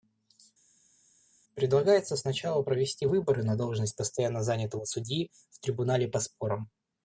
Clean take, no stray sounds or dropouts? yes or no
yes